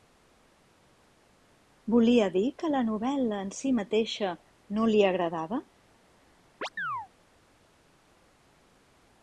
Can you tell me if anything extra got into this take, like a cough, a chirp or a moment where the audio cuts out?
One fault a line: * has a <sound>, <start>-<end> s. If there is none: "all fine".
* has a chirp, 6.6-7.1 s